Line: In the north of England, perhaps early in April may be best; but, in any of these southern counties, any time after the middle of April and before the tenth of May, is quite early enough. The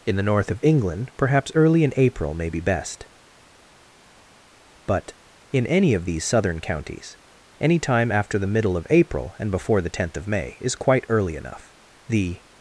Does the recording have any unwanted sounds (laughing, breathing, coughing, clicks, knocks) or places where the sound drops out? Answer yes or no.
no